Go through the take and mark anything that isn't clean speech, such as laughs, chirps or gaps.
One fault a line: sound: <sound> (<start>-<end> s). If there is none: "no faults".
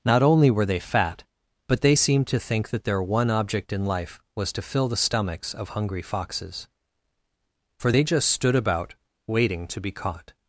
no faults